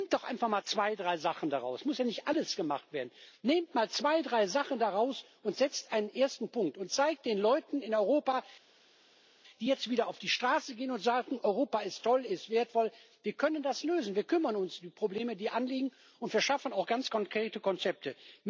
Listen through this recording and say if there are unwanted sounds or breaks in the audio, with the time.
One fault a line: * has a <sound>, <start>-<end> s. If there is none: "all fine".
all fine